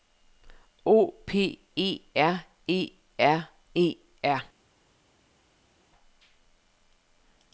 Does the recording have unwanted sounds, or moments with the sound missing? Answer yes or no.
no